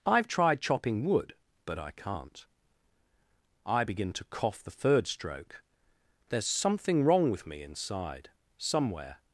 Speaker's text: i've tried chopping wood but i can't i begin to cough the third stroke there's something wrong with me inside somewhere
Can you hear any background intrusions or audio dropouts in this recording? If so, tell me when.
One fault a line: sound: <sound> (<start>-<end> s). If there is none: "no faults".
no faults